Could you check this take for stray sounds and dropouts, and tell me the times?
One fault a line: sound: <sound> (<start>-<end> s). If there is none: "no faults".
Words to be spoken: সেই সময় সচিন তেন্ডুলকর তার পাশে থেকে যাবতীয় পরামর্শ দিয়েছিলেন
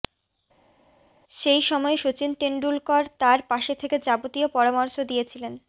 no faults